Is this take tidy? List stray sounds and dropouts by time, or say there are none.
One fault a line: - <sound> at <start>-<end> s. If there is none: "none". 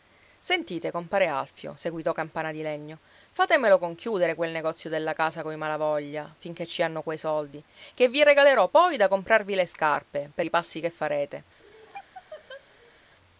- laugh at 11.6-13.0 s